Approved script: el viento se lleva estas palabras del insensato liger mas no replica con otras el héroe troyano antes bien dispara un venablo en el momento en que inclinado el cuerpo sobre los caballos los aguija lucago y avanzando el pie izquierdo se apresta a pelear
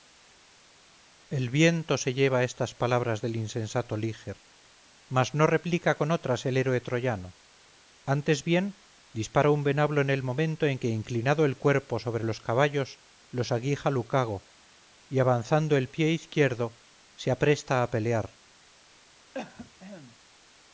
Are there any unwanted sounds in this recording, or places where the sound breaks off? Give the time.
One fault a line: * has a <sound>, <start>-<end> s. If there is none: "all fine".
* has a cough, 19.3-20.2 s